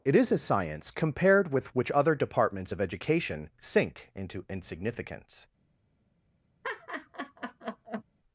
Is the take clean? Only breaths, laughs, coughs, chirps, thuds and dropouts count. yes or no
no